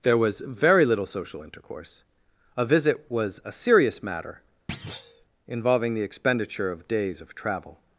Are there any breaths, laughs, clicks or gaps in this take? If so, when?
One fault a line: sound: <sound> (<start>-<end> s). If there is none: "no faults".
sound: thud (4.7-5.3 s)